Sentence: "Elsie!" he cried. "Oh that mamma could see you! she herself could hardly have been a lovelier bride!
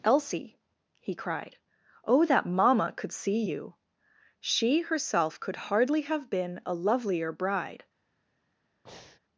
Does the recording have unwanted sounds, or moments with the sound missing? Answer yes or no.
yes